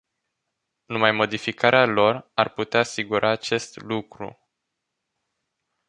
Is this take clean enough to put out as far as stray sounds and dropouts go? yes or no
yes